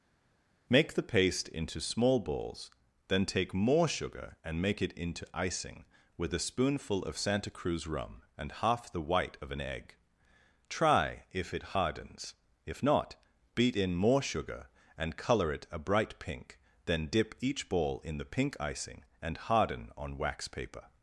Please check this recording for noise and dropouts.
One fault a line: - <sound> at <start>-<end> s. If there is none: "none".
none